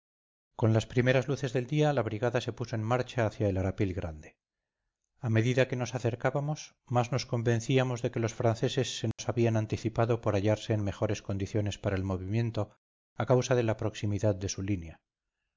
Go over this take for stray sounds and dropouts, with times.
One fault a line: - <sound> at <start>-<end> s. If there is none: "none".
- dropout at 9.1-9.2 s